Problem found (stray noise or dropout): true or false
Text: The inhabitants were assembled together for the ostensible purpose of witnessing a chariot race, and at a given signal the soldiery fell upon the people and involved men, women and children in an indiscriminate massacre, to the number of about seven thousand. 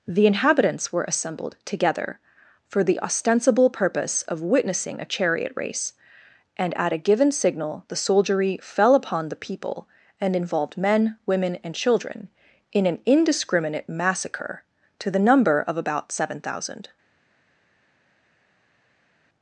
false